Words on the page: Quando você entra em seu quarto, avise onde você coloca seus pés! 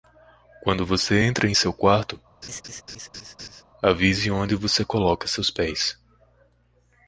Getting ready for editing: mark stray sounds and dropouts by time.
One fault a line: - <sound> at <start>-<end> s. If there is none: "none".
- laugh at 2.4-3.6 s